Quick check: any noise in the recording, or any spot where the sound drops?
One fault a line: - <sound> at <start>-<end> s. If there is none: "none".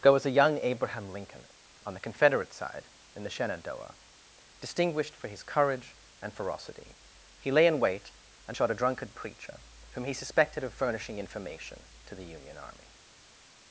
none